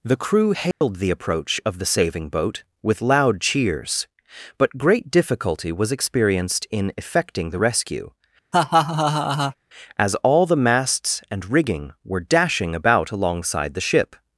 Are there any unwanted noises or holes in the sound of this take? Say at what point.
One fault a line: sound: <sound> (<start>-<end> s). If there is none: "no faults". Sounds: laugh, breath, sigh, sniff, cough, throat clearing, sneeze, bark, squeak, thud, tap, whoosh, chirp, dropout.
sound: dropout (0.7-0.8 s)
sound: laugh (8.5-9.6 s)